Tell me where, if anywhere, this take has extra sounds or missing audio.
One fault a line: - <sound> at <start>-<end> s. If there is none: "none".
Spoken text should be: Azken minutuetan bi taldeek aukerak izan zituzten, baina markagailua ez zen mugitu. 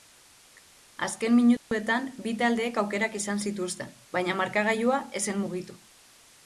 - dropout at 1.6-1.7 s